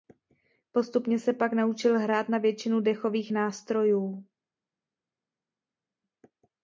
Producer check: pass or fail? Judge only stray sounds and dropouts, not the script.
pass